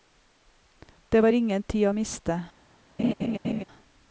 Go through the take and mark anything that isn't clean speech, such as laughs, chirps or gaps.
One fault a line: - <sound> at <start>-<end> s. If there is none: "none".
- laugh at 3.0-3.6 s